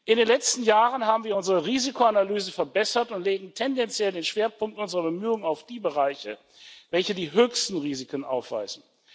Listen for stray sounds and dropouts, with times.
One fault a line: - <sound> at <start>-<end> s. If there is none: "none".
none